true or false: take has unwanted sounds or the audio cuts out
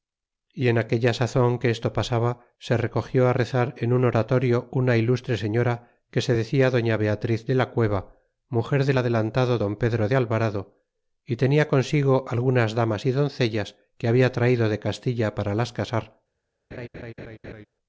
true